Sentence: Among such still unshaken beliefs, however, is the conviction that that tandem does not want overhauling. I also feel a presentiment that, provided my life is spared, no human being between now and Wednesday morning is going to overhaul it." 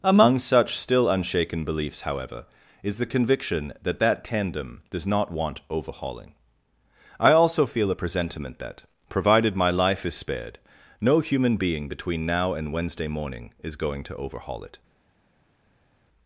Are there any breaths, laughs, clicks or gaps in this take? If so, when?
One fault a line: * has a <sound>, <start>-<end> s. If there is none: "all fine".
all fine